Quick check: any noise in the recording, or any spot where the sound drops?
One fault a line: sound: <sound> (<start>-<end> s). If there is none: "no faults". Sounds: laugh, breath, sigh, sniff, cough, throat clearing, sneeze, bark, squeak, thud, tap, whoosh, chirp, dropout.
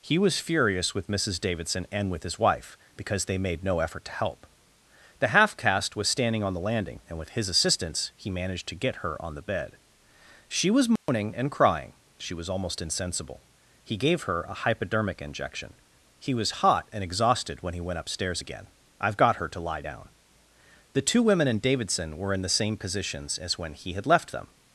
sound: dropout (11.0-11.1 s)